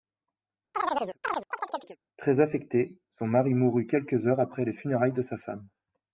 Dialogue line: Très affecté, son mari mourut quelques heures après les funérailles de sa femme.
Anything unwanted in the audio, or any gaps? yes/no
yes